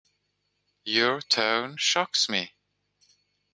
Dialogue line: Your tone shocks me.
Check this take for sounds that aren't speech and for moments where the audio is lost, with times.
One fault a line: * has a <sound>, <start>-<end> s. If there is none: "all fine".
all fine